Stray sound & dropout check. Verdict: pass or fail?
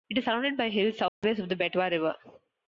fail